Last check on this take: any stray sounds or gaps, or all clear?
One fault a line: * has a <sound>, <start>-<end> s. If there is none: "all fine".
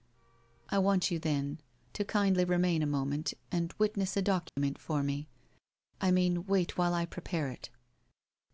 * has a dropout, 4.5-4.6 s